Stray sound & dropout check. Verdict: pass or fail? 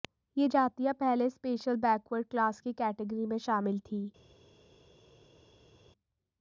pass